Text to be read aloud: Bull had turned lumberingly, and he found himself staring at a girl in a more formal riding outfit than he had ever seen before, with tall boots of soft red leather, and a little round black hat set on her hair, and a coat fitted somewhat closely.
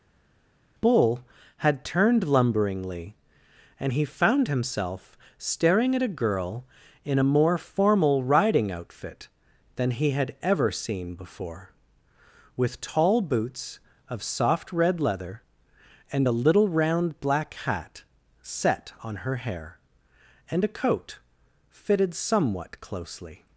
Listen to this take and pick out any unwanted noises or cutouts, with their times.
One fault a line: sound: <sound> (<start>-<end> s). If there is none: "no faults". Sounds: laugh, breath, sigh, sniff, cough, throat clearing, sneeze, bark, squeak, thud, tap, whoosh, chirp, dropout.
no faults